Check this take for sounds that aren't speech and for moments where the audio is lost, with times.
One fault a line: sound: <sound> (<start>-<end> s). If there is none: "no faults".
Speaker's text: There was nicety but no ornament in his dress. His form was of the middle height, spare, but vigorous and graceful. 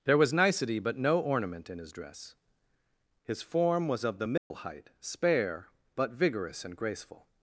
sound: dropout (4.4-4.5 s)